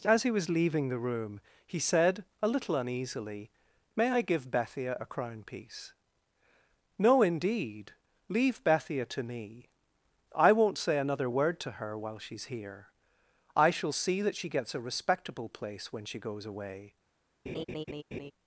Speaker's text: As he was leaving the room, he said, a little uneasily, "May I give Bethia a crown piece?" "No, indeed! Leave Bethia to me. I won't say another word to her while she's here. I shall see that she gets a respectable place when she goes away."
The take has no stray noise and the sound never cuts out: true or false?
false